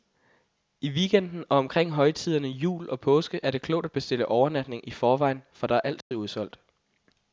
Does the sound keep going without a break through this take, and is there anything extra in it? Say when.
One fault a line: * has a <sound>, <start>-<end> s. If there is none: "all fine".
* has a dropout, 6.0-6.1 s